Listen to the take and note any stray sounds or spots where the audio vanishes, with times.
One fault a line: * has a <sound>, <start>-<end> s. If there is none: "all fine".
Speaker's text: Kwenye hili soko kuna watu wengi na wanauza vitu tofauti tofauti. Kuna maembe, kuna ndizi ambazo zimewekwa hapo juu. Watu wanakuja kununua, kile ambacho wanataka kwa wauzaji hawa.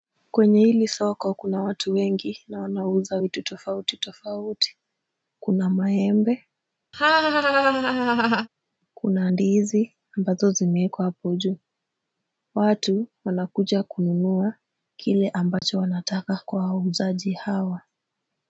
* has a laugh, 6.9-8.5 s
* has a dropout, 15.6-15.6 s